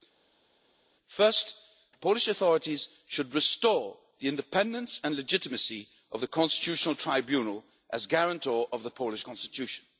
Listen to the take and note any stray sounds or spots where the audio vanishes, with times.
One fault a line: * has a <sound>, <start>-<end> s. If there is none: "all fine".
all fine